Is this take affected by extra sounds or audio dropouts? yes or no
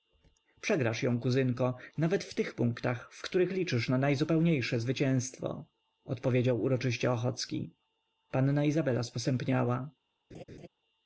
yes